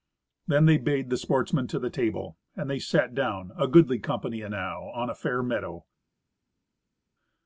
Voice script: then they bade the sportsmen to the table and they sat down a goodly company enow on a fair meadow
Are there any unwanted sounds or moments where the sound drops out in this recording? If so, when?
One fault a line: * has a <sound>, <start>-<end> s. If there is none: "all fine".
all fine